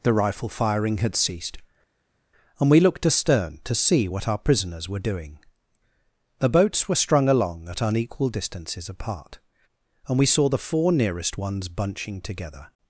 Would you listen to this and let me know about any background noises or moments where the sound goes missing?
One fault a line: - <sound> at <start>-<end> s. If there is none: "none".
none